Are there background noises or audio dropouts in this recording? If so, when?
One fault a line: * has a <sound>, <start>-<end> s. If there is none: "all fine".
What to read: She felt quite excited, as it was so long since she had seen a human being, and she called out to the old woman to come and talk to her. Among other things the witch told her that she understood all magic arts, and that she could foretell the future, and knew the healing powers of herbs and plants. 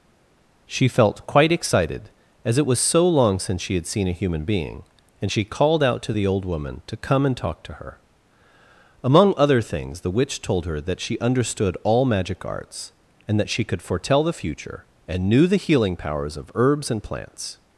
all fine